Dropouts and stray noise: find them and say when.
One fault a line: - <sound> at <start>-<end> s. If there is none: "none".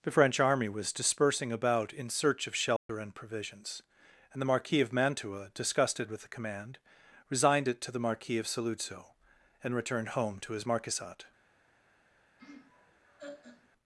- dropout at 2.8-2.9 s
- laugh at 12.4-13.7 s